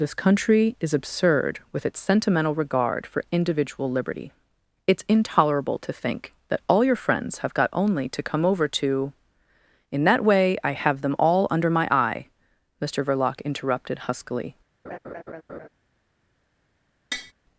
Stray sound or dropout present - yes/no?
yes